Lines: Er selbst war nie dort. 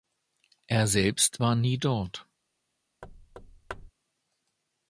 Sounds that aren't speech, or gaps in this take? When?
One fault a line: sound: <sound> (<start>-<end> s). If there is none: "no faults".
sound: thud (3.0-3.9 s)